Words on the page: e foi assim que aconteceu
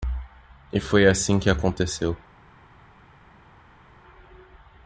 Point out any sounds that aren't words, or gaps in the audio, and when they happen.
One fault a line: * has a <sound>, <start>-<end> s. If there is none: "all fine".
all fine